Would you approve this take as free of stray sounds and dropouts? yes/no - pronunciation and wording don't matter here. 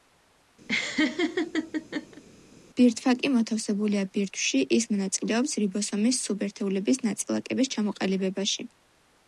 no